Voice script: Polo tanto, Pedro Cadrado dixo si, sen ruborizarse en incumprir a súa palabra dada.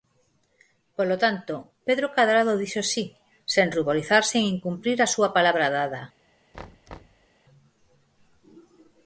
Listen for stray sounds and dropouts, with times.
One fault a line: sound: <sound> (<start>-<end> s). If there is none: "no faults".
sound: thud (6.5-7.3 s)